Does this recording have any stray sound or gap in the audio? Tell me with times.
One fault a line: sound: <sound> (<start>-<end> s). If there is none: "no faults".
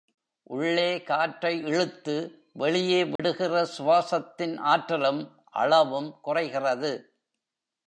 sound: dropout (3.2-3.2 s)